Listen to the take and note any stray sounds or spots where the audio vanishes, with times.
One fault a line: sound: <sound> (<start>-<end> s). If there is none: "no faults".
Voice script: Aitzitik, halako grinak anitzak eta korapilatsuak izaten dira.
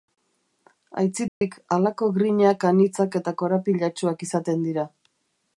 sound: dropout (1.3-1.4 s)